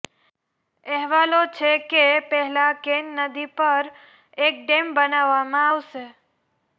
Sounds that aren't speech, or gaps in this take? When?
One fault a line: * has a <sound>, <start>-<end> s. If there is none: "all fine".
all fine